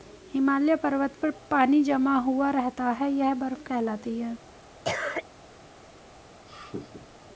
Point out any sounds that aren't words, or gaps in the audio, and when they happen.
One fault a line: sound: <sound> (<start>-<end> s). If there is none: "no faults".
sound: cough (4.8-5.3 s)
sound: laugh (6.5-7.2 s)